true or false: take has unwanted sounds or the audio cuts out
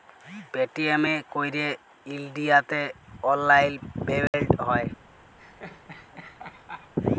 true